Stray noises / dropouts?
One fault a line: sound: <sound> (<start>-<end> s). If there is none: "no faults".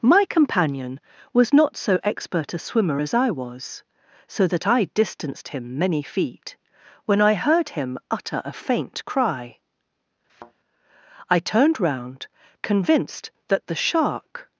sound: thud (10.3-10.5 s)